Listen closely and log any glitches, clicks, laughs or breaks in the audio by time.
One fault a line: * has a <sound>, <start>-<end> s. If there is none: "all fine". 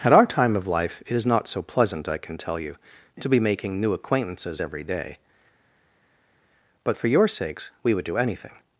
all fine